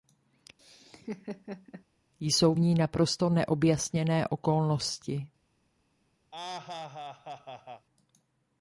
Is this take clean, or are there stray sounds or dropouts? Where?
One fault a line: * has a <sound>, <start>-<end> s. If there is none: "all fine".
* has a laugh, 0.6-1.8 s
* has a laugh, 6.3-7.9 s